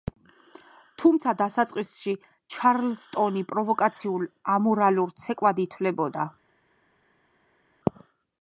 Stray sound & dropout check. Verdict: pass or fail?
pass